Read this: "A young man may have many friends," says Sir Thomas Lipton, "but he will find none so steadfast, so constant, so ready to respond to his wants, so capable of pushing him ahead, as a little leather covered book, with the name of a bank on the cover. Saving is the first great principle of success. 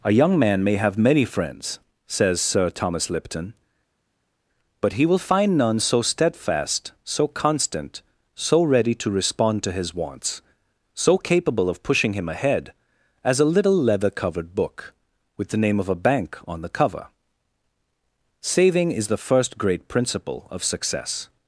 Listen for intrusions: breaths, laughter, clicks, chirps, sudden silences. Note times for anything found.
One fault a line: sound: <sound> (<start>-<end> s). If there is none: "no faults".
no faults